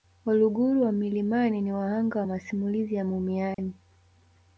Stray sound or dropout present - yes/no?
yes